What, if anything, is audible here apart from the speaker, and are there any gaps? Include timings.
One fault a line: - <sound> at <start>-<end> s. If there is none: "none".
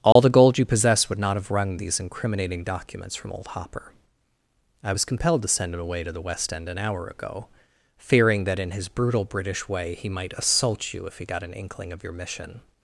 - dropout at 0.1-0.2 s